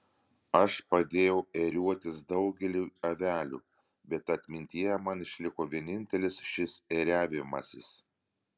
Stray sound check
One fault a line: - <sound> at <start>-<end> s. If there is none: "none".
none